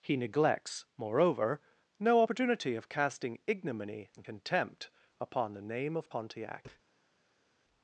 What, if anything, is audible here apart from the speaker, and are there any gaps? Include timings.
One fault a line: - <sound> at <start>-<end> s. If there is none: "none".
none